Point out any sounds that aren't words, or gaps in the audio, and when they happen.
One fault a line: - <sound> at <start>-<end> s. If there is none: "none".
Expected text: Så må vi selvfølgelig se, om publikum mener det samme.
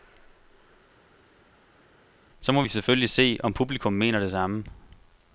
none